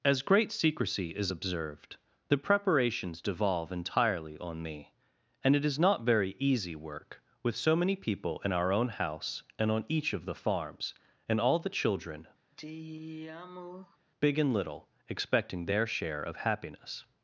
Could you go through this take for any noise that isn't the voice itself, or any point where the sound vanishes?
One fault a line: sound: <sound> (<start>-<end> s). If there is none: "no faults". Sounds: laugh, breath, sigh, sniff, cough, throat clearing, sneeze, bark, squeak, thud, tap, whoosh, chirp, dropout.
sound: sigh (12.5-14.0 s)